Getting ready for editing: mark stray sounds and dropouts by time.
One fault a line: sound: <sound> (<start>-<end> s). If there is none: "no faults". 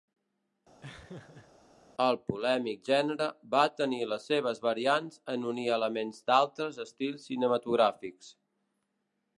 sound: laugh (0.8-1.5 s)